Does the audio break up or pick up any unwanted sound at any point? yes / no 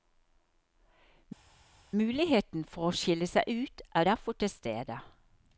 no